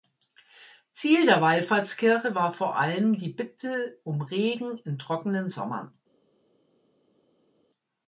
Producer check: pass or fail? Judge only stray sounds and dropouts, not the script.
pass